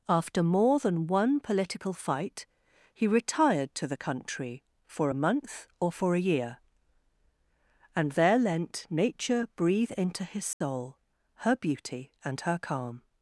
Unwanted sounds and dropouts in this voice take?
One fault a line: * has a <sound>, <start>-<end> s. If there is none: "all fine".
* has a dropout, 10.5-10.6 s